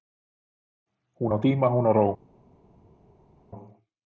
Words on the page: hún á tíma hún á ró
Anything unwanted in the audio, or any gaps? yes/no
no